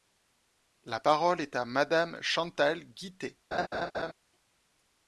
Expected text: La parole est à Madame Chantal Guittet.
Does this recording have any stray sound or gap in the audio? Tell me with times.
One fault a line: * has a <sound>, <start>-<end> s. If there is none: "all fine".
* has a laugh, 3.5-4.1 s